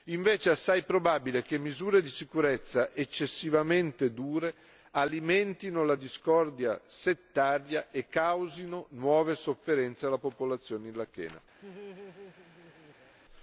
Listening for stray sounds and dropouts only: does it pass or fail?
fail